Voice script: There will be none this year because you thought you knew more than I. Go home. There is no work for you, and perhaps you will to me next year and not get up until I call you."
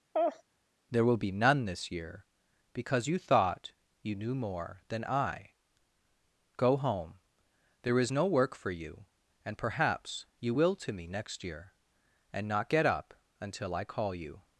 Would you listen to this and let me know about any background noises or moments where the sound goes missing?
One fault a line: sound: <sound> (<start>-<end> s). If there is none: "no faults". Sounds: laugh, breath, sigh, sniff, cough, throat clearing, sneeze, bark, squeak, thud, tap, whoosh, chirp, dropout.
sound: laugh (0.1-0.4 s)